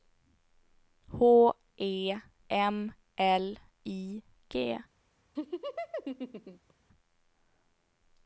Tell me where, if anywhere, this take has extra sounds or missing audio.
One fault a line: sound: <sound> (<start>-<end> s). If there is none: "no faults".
sound: laugh (5.4-6.7 s)